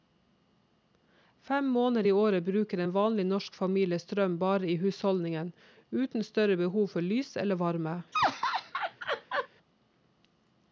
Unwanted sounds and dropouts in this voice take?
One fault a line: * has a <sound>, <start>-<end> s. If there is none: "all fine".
* has a laugh, 8.1-9.5 s